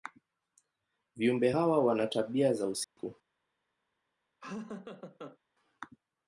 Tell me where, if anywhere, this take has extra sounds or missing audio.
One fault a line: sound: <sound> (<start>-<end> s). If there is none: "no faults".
sound: dropout (2.8-3.0 s)
sound: laugh (4.4-5.4 s)